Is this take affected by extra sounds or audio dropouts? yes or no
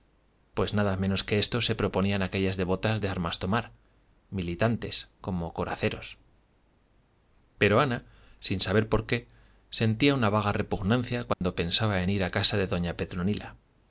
yes